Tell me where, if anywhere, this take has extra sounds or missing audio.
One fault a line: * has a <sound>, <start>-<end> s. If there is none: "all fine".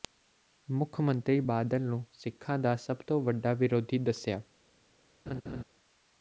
* has a laugh, 5.3-5.6 s